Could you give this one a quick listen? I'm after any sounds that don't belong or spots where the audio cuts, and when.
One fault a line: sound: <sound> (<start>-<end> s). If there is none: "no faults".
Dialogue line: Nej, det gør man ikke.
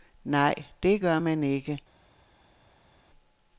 no faults